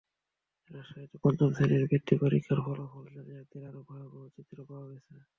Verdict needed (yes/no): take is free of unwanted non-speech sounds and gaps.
yes